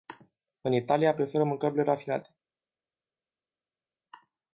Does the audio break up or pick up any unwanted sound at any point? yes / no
no